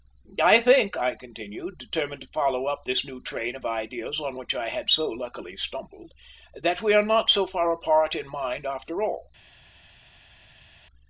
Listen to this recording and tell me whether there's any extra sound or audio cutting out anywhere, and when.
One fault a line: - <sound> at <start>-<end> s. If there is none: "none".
none